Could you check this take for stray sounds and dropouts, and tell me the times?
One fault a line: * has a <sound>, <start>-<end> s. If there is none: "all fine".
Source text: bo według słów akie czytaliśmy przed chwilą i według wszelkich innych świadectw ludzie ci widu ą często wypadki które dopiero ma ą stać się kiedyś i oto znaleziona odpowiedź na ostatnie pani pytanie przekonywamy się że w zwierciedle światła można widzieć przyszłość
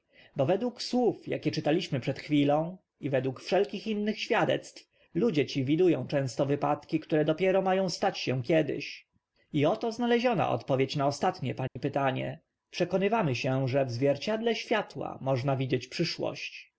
* has a dropout, 11.7-11.8 s